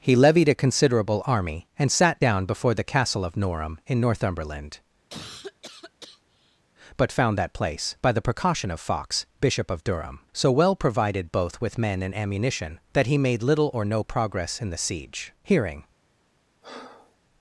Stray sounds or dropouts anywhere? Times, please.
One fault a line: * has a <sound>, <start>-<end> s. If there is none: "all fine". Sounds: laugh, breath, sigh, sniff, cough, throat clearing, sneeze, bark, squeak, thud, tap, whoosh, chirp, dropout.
* has a cough, 5.1-6.6 s
* has a breath, 16.6-17.2 s